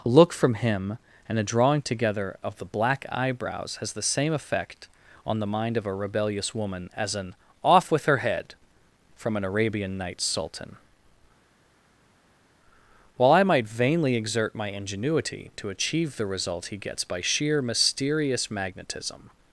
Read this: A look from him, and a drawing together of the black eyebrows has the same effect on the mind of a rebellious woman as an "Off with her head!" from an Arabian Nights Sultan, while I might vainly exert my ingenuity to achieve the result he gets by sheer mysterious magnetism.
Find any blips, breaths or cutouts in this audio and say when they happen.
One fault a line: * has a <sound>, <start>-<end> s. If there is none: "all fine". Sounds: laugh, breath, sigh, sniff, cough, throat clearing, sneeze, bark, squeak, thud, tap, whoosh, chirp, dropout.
all fine